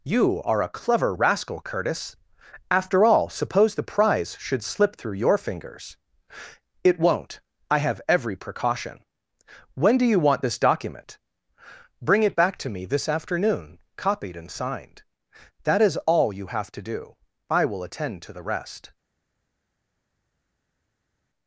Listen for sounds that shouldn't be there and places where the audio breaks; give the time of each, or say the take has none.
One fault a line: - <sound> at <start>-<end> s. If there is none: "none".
none